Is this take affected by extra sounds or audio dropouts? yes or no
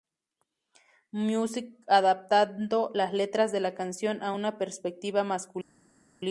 no